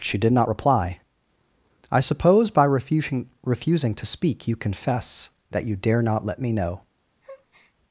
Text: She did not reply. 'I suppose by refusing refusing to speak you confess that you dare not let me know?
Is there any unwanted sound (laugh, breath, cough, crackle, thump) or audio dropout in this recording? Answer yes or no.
yes